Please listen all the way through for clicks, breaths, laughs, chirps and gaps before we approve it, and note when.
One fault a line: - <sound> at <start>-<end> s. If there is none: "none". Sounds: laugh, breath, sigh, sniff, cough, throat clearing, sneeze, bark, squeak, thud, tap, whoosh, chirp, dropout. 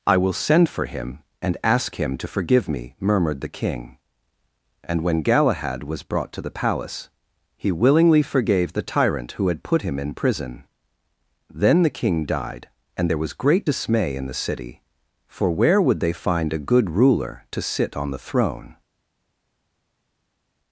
none